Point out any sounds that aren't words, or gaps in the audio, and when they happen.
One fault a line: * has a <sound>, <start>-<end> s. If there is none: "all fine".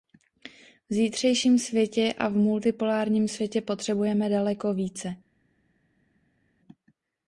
all fine